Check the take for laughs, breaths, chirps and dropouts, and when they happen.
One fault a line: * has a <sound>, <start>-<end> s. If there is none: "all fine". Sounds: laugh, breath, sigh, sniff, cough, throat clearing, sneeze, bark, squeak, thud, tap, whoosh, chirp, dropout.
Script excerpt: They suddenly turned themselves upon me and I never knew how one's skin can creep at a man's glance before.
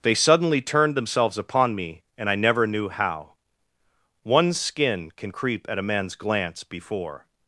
all fine